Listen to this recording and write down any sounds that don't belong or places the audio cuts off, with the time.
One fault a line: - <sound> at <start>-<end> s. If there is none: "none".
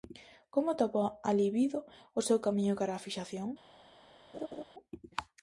- laugh at 4.3-4.6 s